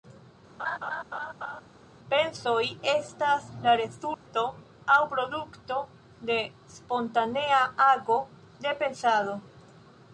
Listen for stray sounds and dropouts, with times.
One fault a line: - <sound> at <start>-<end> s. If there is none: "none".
- laugh at 0.6-1.6 s
- dropout at 4.1-4.3 s